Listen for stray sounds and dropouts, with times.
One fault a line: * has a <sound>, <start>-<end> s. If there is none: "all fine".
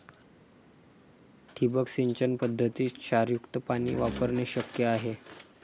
all fine